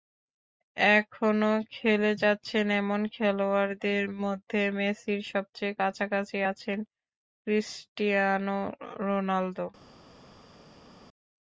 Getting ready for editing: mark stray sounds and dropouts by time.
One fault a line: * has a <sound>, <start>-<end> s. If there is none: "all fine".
all fine